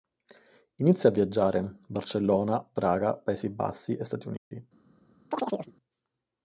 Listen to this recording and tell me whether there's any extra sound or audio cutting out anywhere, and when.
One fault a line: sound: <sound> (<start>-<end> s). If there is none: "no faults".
sound: dropout (4.4-4.5 s)
sound: chirp (5.3-5.7 s)